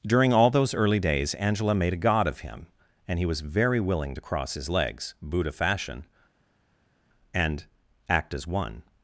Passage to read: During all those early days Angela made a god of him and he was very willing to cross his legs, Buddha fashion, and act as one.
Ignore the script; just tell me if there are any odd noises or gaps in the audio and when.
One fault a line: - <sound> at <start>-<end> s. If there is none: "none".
none